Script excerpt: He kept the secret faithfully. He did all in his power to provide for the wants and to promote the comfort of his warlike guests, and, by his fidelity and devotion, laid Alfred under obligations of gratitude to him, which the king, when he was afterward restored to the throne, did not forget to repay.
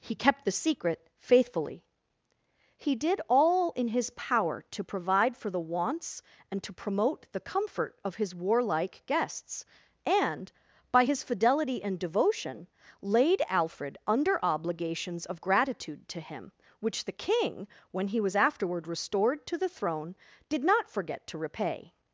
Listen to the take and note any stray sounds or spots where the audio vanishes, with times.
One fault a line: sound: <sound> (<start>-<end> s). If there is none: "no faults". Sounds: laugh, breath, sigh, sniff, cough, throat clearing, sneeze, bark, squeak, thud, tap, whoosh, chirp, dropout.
no faults